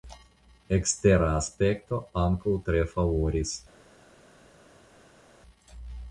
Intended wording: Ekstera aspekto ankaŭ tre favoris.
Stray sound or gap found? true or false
false